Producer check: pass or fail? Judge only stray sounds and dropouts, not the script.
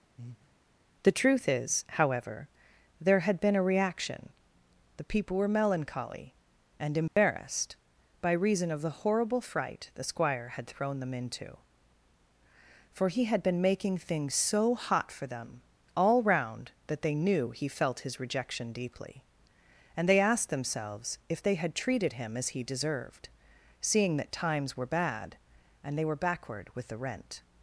fail